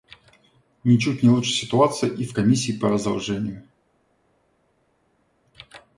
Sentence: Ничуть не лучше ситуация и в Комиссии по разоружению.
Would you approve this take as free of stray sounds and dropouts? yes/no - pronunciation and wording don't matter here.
yes